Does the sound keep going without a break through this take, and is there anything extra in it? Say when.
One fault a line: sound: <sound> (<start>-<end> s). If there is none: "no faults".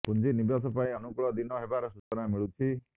sound: dropout (2.0-2.1 s)